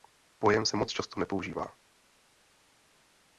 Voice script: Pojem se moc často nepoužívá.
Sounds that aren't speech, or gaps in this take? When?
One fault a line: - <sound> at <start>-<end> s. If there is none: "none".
none